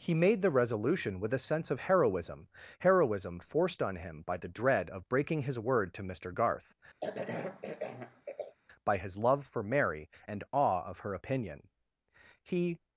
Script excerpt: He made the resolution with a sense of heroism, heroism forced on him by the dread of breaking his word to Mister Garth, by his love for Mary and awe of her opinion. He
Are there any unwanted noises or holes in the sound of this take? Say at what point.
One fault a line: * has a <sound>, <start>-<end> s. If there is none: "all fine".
* has a cough, 7.0-8.5 s